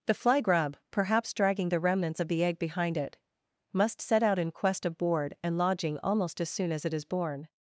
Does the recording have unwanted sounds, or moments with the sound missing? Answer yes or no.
no